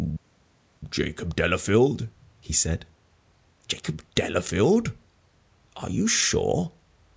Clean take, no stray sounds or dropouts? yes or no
yes